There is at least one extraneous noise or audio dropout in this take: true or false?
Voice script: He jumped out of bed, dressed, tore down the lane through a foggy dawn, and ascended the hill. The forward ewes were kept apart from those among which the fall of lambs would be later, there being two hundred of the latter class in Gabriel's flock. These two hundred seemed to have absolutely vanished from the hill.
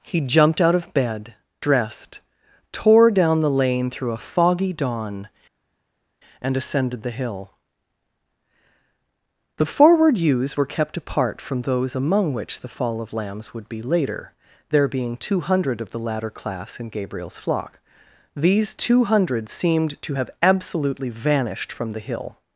false